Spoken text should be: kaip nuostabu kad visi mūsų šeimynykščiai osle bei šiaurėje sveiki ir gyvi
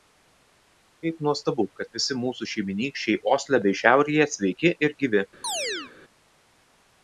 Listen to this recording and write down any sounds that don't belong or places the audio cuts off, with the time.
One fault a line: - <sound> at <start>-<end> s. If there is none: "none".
- chirp at 5.4-5.9 s